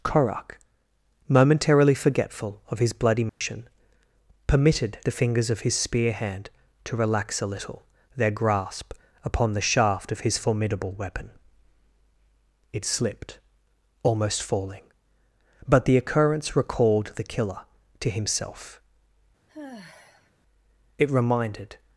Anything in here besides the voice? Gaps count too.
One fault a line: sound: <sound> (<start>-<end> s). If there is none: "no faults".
sound: dropout (3.3-3.4 s)
sound: sigh (19.5-20.3 s)